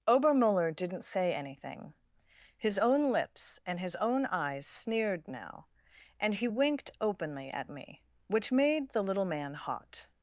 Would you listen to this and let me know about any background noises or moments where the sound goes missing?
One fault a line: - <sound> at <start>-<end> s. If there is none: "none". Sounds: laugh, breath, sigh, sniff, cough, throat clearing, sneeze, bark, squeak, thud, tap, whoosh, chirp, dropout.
none